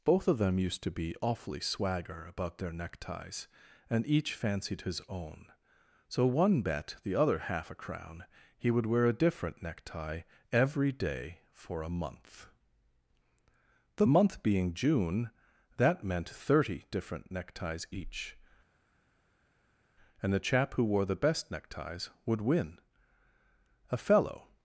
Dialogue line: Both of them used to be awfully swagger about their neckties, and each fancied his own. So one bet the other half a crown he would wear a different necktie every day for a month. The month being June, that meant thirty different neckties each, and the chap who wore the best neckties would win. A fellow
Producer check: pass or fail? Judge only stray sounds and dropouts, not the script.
pass